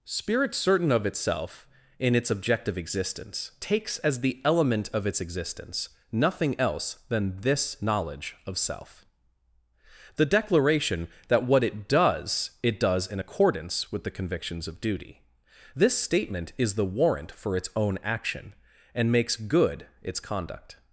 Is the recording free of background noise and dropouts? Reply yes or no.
yes